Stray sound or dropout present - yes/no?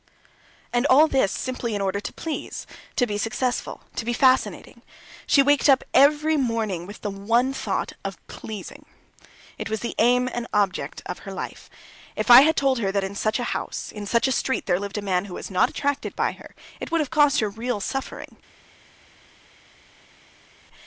no